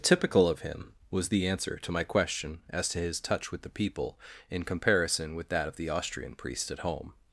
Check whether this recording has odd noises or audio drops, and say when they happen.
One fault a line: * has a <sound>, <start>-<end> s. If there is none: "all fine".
all fine